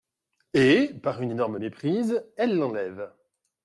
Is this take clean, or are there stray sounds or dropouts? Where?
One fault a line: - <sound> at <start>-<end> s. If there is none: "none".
none